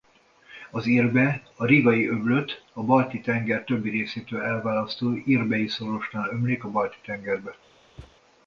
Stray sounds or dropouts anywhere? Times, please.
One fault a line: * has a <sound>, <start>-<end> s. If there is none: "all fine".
* has a thud, 8.0-8.2 s